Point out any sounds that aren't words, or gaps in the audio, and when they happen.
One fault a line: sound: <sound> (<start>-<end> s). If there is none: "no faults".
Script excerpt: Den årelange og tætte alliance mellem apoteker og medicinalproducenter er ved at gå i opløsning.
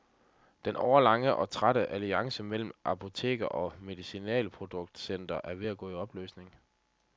no faults